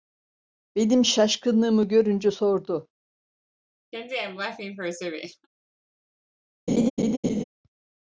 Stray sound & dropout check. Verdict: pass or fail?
fail